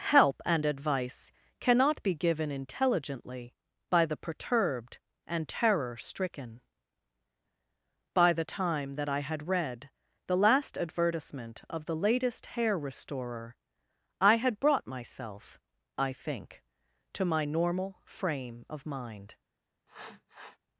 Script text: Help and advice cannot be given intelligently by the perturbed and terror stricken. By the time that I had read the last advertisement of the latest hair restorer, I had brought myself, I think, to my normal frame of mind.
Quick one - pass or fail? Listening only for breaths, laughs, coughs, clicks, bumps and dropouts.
fail